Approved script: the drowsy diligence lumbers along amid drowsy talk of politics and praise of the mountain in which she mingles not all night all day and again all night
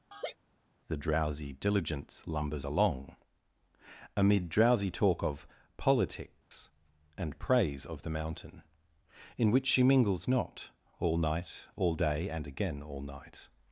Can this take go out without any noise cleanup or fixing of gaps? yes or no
no